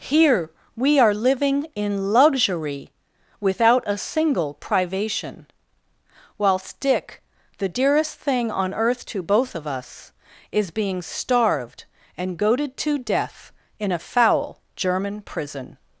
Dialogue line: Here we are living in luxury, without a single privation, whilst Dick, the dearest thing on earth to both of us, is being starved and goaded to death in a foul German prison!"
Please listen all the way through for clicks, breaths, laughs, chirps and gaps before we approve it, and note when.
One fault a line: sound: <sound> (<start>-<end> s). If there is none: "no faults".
no faults